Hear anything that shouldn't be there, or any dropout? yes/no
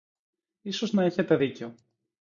no